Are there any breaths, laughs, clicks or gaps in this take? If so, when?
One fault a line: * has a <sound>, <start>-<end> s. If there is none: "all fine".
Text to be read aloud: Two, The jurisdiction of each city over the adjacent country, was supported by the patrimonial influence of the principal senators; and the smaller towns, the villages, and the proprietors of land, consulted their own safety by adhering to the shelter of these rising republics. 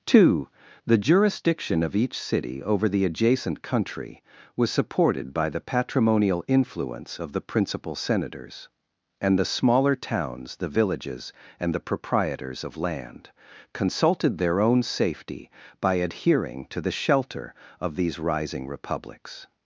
all fine